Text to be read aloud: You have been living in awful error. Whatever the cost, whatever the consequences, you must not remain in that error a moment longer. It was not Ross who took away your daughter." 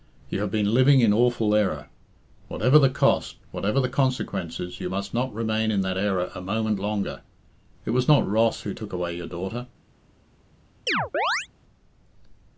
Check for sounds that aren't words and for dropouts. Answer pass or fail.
fail